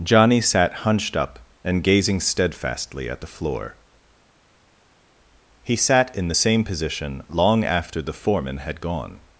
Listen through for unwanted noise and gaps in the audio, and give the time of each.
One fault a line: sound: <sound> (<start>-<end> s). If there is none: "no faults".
no faults